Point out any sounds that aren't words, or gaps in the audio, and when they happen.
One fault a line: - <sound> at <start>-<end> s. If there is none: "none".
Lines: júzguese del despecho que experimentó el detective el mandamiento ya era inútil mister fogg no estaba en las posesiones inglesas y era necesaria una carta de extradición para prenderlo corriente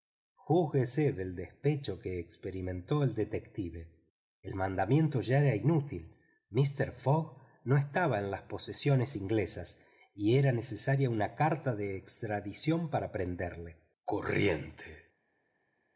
none